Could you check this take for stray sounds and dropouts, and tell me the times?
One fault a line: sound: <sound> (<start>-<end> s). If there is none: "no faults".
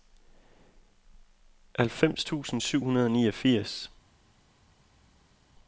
no faults